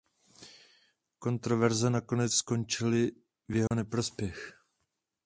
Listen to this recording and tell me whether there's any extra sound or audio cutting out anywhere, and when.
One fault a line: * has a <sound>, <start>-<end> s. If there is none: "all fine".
* has a dropout, 3.7-3.7 s